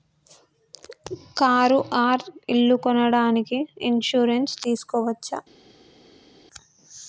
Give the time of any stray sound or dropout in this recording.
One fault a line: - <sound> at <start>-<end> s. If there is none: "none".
none